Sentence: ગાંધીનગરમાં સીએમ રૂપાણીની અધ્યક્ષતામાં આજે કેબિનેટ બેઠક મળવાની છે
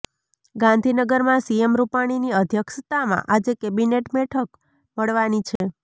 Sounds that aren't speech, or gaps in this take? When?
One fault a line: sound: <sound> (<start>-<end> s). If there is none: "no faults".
sound: dropout (5.6-5.6 s)